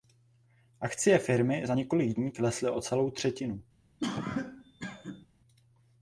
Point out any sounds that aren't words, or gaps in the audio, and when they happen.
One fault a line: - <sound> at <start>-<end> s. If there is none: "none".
- cough at 4.0-5.3 s